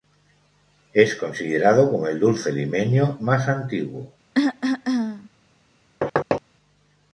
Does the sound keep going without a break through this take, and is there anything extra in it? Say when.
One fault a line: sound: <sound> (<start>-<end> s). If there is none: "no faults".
sound: cough (4.3-5.3 s)
sound: thud (6.0-6.4 s)